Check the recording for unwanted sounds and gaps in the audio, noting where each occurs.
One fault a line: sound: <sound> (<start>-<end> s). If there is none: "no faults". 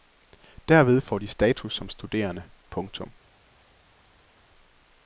no faults